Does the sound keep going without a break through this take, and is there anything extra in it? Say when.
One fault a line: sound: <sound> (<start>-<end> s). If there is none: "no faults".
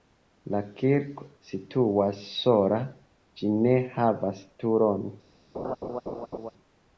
sound: laugh (5.5-6.5 s)